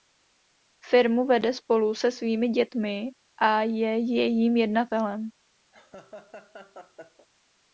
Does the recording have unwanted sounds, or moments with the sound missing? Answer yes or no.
yes